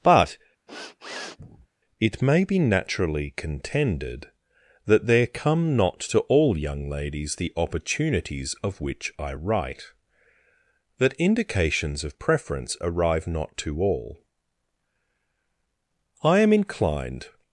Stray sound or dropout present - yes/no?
yes